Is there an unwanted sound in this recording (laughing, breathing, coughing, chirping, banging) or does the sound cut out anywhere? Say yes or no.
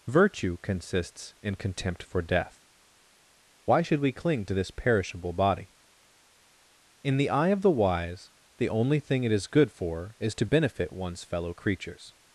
no